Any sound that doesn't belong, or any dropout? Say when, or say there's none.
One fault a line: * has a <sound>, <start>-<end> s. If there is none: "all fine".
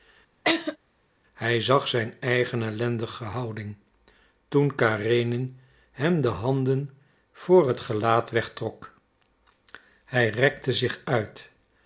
* has a laugh, 0.4-0.8 s